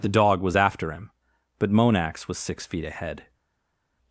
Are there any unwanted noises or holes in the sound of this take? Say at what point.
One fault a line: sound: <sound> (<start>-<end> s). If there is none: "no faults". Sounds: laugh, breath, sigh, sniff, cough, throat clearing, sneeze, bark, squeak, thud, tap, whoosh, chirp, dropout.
no faults